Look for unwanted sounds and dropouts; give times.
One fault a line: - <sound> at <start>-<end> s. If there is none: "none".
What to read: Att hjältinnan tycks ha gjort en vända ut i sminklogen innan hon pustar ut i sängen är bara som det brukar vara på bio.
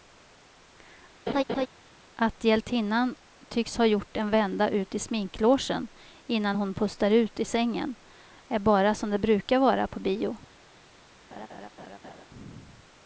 - laugh at 1.3-1.7 s
- laugh at 11.3-12.3 s